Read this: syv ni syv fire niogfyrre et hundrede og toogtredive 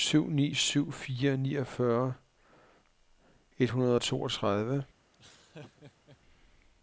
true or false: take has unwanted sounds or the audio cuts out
true